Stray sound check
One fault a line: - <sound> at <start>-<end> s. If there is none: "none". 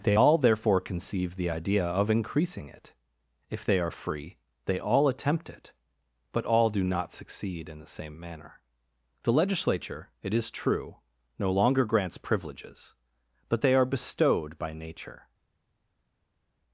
none